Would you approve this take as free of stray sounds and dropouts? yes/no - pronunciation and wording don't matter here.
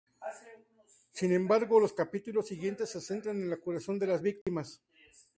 no